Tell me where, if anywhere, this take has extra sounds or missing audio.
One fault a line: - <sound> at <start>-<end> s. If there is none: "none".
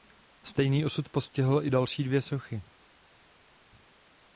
none